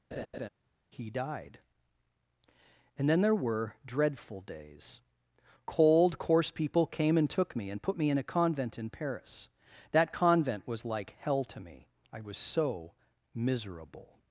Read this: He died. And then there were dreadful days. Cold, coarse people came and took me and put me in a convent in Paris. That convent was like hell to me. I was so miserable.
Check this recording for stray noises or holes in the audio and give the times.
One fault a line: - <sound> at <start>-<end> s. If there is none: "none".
- laugh at 0.1-0.5 s